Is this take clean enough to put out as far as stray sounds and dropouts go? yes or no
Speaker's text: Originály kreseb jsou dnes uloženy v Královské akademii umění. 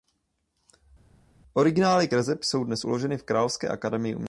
yes